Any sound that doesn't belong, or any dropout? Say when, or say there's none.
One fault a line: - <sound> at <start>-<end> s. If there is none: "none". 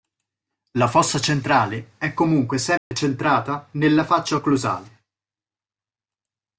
- dropout at 2.8-2.9 s